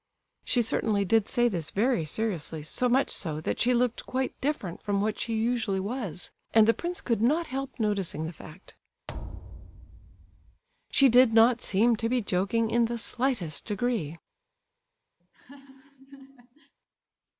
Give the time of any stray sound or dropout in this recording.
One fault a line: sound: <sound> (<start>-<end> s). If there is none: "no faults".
sound: thud (9.1-10.6 s)
sound: laugh (15.2-16.7 s)